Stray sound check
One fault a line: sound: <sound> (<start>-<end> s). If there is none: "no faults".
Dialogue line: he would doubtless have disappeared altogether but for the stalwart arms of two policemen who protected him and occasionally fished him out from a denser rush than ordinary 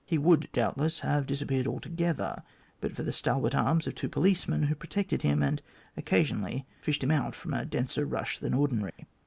sound: dropout (8.9-9.0 s)